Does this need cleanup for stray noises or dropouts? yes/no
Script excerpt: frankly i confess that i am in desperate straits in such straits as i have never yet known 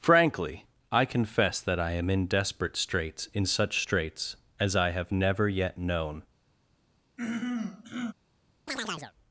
yes